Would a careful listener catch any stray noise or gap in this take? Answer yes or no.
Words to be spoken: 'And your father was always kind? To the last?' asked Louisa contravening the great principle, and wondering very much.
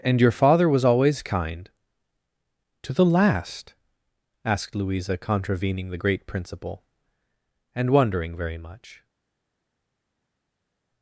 no